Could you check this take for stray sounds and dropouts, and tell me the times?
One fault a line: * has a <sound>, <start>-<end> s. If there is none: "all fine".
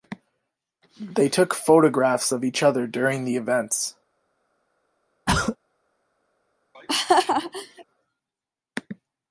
* has a throat clearing, 5.3-5.6 s
* has a laugh, 6.7-7.8 s